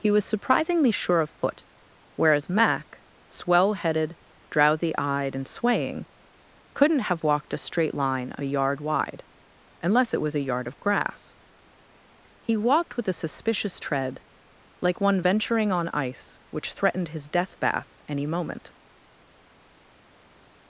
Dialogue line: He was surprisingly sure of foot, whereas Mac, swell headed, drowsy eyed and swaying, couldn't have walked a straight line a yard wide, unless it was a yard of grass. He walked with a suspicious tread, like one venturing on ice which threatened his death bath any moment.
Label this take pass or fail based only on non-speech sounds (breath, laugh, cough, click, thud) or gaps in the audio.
pass